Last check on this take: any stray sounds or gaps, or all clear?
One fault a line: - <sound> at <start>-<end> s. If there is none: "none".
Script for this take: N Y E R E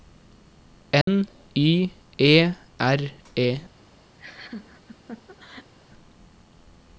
- dropout at 1.0-1.1 s
- laugh at 4.2-5.7 s